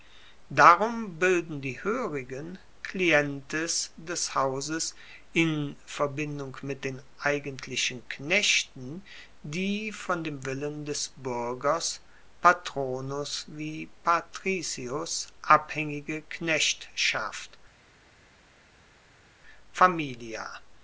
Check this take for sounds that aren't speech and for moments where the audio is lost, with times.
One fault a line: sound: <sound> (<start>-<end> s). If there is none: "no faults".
no faults